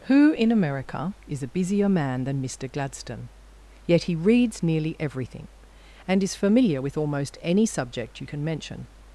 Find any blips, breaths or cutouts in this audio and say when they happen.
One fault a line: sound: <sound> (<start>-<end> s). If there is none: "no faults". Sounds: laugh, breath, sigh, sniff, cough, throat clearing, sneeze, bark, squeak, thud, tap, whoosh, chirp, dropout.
no faults